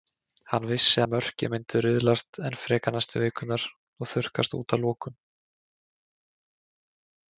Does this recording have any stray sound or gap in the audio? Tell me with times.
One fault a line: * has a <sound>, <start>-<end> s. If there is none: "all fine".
all fine